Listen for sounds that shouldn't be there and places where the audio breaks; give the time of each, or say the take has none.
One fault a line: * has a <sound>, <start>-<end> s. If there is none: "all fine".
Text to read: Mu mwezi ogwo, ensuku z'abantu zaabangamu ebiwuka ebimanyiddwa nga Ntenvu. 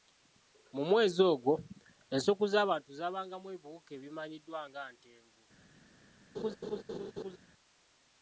* has a laugh, 6.3-7.4 s